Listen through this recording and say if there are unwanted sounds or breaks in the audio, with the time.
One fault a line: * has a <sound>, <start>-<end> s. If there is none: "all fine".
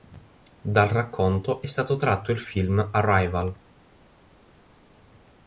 all fine